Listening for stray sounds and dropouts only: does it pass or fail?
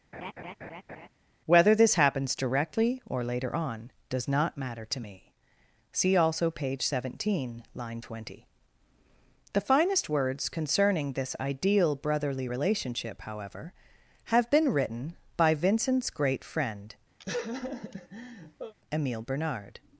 fail